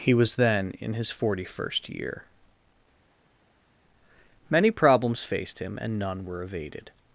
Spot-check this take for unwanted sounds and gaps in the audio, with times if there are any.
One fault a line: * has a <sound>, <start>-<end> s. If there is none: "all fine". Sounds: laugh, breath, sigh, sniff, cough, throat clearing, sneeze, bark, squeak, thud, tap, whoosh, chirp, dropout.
all fine